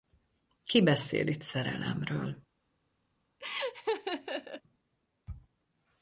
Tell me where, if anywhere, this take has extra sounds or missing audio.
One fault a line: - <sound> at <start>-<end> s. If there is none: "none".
- laugh at 3.4-4.6 s